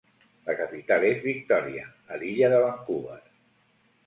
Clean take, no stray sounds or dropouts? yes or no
yes